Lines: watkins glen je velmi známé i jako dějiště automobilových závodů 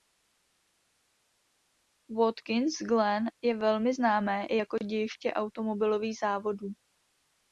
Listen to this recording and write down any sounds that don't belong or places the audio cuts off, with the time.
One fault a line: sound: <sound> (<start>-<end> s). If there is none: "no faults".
no faults